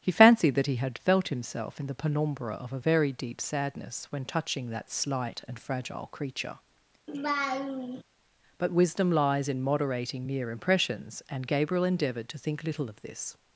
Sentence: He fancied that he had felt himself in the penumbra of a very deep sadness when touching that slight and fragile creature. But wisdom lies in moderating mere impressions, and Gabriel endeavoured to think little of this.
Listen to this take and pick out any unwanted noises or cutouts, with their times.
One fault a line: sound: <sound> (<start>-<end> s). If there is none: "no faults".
sound: laugh (7.1-8.0 s)